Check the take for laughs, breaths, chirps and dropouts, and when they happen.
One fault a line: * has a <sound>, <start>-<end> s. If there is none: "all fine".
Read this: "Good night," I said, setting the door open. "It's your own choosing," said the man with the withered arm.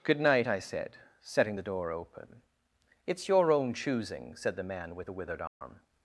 * has a dropout, 5.5-5.6 s